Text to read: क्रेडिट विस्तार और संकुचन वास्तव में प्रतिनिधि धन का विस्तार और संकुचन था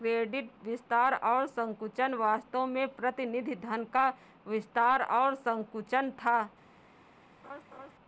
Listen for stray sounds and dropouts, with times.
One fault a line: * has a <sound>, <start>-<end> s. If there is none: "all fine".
* has a laugh, 7.4-7.9 s